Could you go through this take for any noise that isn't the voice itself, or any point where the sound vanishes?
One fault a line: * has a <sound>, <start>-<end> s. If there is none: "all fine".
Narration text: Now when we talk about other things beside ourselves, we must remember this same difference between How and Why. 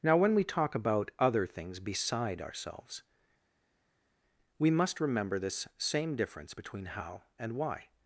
all fine